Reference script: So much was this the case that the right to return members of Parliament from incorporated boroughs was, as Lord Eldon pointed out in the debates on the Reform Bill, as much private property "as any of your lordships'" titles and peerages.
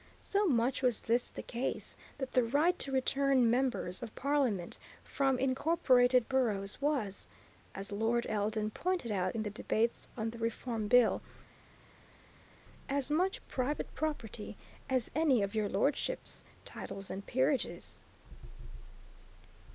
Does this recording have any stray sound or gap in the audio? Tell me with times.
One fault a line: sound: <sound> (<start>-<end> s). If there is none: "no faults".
no faults